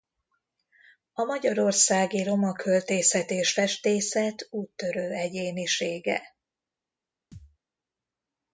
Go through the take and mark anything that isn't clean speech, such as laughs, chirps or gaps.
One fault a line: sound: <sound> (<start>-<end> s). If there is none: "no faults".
sound: thud (7.3-7.6 s)